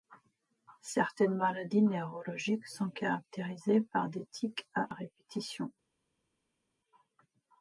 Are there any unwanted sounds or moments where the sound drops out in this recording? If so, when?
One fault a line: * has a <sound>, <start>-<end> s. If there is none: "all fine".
all fine